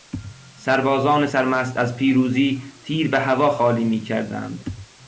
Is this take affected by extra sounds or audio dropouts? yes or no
no